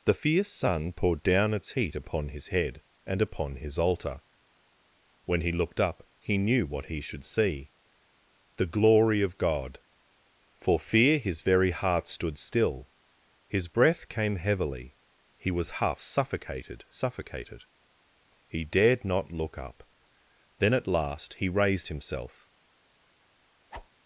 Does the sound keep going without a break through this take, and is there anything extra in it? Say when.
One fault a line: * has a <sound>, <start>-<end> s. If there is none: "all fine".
* has a whoosh, 23.7-23.9 s